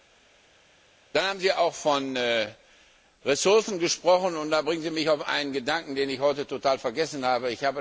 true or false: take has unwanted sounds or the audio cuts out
false